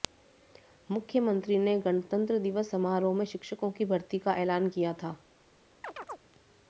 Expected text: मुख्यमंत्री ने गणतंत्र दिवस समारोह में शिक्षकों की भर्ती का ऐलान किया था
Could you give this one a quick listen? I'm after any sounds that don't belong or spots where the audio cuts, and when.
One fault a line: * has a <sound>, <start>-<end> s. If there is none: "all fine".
* has a chirp, 5.8-6.2 s